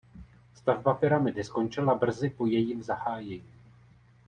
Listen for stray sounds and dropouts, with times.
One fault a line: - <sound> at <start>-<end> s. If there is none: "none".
none